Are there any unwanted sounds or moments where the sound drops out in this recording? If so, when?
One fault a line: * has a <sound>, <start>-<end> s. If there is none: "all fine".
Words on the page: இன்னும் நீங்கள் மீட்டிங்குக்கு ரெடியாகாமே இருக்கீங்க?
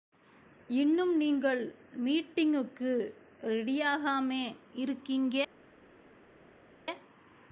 all fine